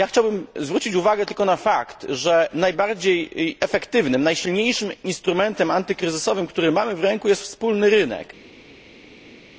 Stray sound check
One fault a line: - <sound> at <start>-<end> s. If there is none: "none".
none